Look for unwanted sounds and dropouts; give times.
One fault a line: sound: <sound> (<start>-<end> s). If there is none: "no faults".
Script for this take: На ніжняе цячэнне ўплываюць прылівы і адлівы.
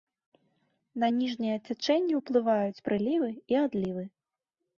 no faults